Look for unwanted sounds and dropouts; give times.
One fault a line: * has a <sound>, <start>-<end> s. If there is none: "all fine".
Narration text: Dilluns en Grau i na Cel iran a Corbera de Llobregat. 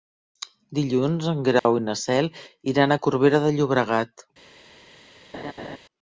* has a dropout, 1.6-1.7 s
* has a laugh, 5.3-5.8 s